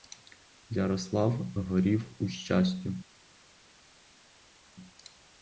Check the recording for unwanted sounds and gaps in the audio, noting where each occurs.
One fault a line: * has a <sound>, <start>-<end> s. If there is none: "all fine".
all fine